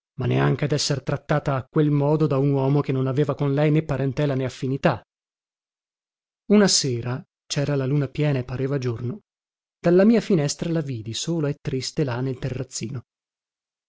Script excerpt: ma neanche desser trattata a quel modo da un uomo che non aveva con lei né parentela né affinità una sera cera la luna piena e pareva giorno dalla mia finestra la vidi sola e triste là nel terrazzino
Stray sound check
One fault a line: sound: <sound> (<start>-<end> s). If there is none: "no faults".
no faults